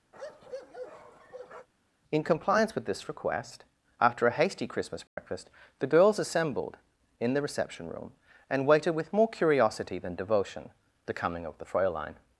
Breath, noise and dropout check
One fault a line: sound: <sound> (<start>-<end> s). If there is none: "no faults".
sound: bark (0.1-1.7 s)
sound: dropout (5.1-5.2 s)